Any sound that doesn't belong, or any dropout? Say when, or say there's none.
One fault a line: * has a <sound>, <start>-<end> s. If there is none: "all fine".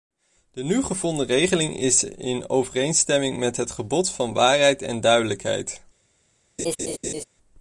* has a laugh, 6.6-7.2 s